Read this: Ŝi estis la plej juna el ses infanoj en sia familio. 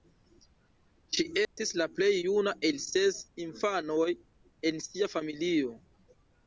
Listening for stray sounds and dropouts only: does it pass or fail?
fail